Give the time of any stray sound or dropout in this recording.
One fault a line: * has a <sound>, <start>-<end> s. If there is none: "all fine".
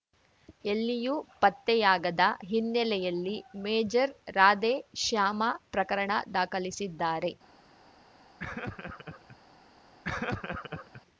* has a laugh, 8.4-9.4 s
* has a laugh, 10.0-11.0 s